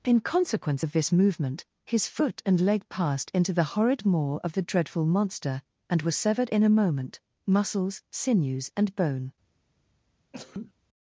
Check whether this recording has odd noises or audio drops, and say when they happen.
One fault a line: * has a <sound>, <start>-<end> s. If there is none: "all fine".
* has a sneeze, 10.3-10.7 s